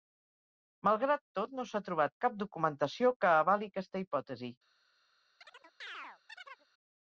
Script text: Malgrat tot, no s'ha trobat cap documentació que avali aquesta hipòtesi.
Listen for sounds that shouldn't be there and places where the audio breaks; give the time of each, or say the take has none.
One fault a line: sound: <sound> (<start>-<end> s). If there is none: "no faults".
sound: chirp (5.4-6.7 s)